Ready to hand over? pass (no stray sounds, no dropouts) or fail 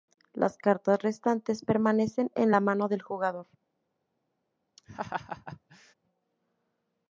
fail